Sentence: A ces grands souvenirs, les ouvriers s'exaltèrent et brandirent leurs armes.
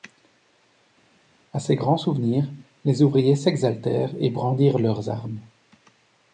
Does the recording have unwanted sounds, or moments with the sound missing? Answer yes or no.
no